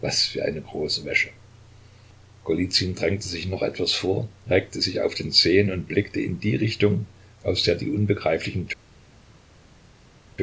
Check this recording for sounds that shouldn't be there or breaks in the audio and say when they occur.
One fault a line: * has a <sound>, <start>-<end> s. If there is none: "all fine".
all fine